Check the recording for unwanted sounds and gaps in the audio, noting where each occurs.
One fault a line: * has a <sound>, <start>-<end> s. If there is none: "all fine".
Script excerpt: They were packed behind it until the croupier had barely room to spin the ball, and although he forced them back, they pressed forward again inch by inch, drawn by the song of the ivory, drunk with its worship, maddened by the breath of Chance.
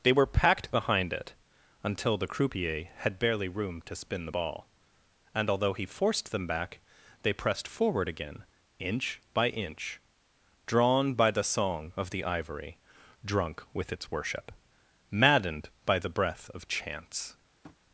* has a tap, 17.6-17.8 s